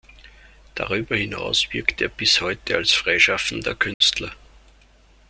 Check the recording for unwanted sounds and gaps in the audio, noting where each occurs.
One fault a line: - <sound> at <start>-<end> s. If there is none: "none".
- dropout at 3.9-4.0 s